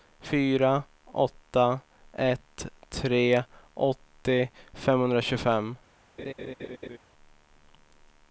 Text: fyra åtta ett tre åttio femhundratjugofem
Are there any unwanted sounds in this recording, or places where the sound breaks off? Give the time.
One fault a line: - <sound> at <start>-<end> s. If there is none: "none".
- laugh at 6.2-7.0 s